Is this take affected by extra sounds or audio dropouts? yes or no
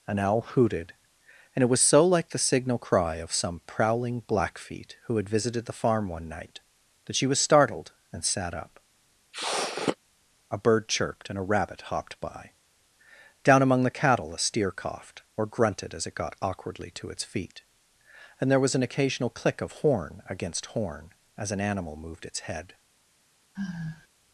yes